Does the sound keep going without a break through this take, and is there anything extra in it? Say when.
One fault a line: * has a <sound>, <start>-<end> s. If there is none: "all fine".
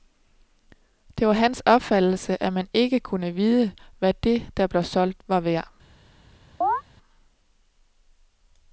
* has a chirp, 6.6-6.8 s